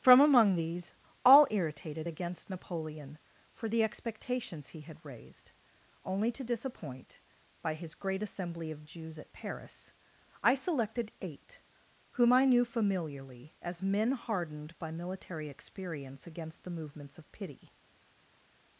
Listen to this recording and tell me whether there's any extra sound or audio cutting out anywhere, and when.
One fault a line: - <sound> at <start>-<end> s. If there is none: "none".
none